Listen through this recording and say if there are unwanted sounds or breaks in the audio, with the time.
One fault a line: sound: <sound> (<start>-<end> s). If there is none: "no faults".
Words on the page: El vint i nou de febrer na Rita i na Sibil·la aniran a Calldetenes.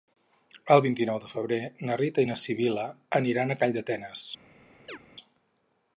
sound: chirp (4.9-5.0 s)